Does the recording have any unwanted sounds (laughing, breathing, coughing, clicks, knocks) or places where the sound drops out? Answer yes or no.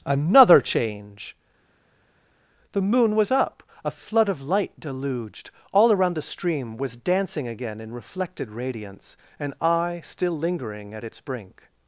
no